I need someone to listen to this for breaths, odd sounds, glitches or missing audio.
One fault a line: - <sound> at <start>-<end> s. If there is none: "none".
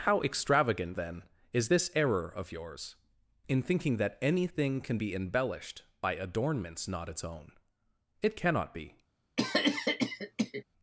- cough at 9.4-10.6 s